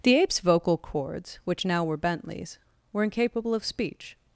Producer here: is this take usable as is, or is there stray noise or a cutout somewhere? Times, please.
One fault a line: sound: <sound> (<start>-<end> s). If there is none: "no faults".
no faults